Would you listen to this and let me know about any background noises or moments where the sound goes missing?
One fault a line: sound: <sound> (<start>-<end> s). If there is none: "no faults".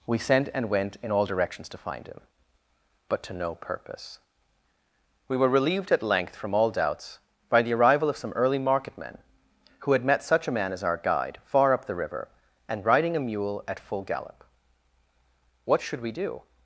no faults